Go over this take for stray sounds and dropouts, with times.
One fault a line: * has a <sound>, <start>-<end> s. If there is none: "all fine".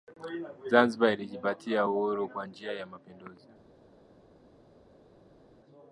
all fine